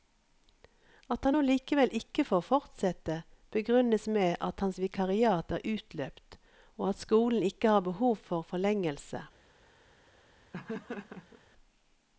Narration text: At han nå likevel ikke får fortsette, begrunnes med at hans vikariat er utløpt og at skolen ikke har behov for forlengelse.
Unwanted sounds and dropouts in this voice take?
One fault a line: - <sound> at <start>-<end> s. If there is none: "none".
- laugh at 10.5-11.4 s